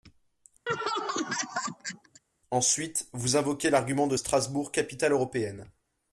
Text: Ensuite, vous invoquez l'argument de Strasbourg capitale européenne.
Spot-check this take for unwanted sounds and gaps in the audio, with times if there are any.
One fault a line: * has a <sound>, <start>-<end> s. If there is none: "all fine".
* has a laugh, 0.7-2.2 s